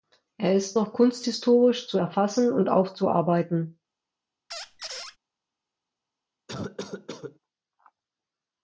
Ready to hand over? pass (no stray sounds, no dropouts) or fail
fail